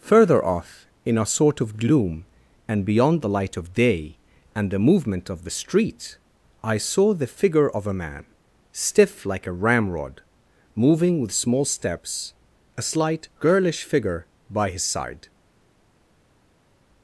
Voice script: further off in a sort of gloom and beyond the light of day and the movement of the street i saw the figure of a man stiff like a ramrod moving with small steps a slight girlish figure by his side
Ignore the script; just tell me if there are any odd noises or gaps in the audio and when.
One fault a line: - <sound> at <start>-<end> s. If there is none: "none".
none